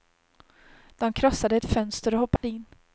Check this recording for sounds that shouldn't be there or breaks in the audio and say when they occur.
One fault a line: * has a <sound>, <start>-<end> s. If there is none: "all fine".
* has a dropout, 2.4-2.4 s